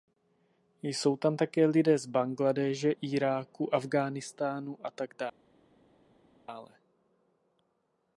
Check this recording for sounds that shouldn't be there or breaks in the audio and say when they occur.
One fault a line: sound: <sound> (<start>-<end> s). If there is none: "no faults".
no faults